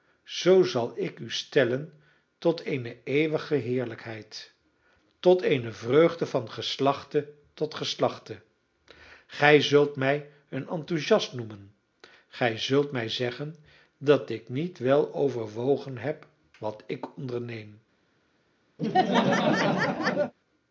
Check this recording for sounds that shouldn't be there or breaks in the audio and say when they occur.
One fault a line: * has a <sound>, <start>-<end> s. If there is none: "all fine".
* has a laugh, 18.8-20.3 s